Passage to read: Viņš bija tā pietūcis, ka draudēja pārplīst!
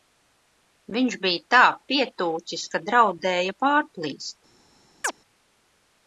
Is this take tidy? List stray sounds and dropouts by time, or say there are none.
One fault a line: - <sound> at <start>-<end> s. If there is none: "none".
- chirp at 5.0-5.1 s